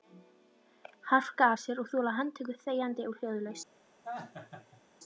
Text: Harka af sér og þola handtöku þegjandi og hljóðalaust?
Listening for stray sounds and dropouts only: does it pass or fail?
fail